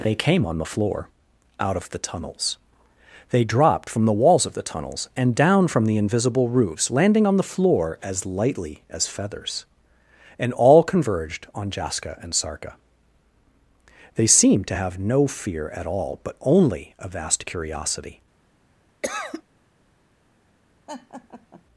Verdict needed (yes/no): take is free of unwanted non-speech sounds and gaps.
no